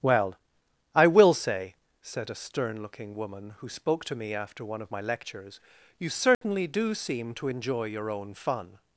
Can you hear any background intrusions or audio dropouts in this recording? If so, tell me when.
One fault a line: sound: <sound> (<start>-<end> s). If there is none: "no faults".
sound: dropout (6.3-6.4 s)